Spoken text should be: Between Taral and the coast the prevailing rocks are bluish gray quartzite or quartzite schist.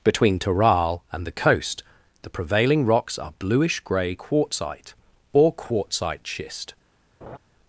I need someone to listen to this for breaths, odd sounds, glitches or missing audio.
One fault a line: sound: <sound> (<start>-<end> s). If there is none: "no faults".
sound: laugh (7.2-7.4 s)